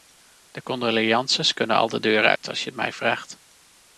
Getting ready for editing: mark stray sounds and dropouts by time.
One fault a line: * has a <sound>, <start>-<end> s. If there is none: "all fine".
* has a dropout, 2.4-2.4 s